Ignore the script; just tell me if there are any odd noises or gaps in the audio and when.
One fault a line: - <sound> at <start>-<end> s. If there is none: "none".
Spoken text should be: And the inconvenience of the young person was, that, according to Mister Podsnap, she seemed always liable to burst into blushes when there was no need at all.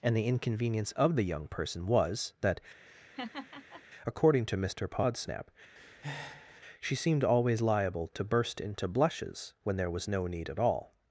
- laugh at 2.9-3.8 s
- breath at 5.8-6.6 s